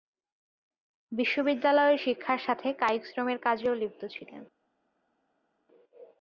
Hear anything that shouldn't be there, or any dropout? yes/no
no